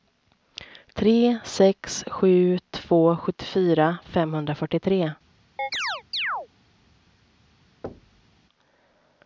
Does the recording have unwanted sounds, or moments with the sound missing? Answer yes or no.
yes